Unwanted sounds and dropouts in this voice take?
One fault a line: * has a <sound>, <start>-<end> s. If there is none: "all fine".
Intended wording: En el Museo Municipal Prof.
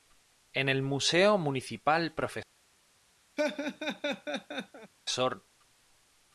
* has a laugh, 3.4-4.9 s